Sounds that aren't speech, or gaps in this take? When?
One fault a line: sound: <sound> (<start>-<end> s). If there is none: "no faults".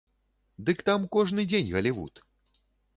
no faults